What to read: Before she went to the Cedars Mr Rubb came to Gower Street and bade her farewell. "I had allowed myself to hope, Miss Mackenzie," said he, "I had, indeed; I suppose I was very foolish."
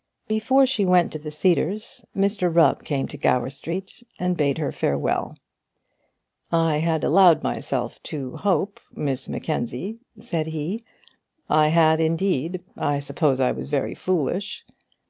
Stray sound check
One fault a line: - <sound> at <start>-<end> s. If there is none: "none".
none